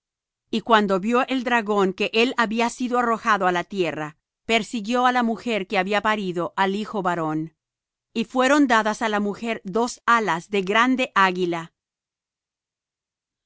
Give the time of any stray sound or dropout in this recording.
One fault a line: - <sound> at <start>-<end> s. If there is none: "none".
none